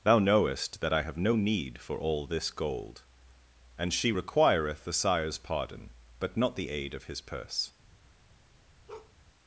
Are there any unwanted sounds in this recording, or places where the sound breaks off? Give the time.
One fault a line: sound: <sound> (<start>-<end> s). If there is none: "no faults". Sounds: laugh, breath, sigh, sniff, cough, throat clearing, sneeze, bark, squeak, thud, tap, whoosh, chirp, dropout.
sound: bark (8.9-9.1 s)